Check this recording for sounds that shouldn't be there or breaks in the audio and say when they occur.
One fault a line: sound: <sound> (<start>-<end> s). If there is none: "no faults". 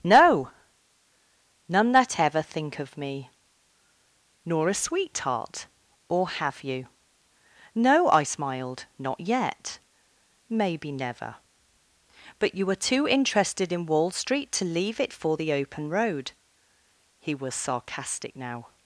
no faults